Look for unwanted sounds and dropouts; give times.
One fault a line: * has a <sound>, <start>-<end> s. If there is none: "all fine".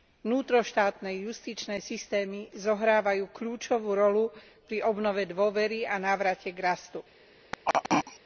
* has a throat clearing, 7.5-8.2 s